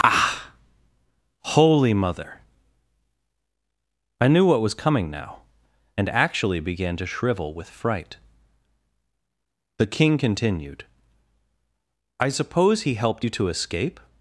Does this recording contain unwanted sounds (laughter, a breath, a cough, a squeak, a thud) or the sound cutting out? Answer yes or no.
no